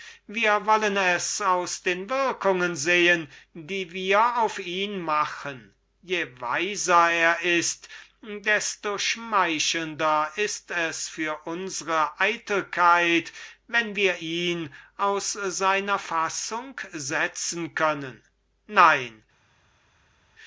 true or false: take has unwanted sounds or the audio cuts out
false